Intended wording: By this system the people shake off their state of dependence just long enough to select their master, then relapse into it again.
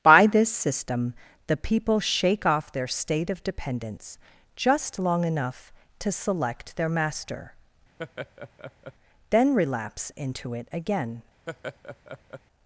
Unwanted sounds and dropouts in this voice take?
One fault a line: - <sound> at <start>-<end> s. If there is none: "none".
- laugh at 8.0-8.9 s
- laugh at 11.5-12.4 s